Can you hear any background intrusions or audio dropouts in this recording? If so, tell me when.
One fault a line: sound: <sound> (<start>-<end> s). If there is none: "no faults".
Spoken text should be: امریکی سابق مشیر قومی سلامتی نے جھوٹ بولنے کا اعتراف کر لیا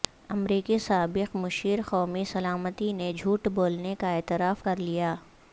no faults